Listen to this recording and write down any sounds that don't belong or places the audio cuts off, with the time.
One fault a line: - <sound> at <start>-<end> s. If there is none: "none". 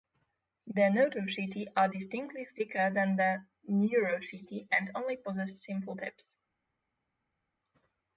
none